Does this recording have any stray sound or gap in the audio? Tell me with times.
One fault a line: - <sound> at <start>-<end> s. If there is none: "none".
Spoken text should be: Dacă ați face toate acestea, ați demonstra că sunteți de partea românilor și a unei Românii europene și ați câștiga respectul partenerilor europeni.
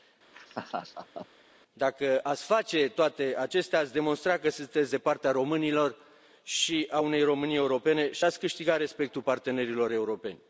- laugh at 0.3-1.3 s